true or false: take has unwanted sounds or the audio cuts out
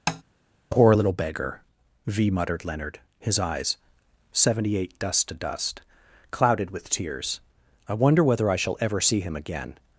true